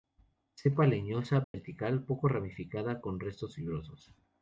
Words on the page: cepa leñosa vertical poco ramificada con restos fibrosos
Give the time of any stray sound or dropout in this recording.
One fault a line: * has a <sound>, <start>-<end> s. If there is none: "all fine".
* has a dropout, 1.4-1.5 s